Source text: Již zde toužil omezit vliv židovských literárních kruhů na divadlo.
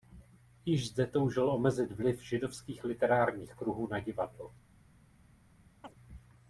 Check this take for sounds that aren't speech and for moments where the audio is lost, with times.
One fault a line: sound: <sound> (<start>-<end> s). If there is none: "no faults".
sound: chirp (5.8-5.9 s)